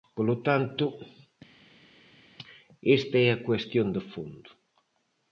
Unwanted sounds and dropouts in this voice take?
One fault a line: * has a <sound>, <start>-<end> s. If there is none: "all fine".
all fine